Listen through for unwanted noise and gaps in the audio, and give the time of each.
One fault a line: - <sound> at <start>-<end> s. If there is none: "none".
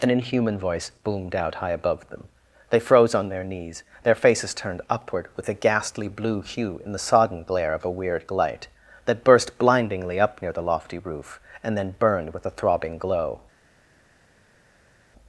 none